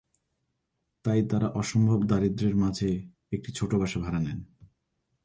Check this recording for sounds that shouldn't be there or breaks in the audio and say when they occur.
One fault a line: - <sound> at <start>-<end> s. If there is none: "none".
none